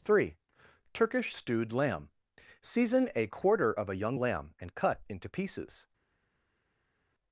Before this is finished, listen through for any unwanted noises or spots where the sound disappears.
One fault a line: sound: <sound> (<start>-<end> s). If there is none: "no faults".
no faults